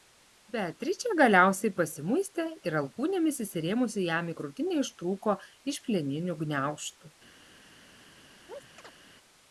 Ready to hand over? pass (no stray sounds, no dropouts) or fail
fail